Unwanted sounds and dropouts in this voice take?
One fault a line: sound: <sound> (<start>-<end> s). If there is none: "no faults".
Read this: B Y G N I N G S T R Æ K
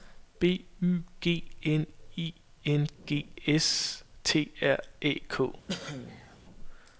sound: cough (5.7-6.4 s)